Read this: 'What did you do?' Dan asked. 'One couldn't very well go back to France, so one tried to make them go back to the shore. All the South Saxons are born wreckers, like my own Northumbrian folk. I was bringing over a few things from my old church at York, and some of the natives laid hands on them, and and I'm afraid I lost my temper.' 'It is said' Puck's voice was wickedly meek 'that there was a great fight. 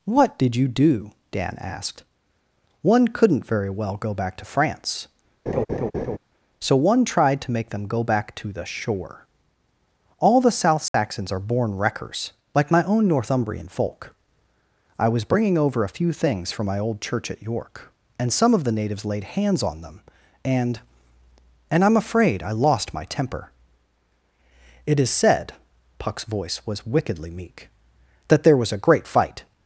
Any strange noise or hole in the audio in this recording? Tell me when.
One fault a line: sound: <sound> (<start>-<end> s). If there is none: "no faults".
sound: laugh (5.5-6.2 s)
sound: dropout (10.9-10.9 s)